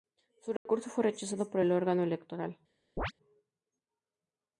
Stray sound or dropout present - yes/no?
yes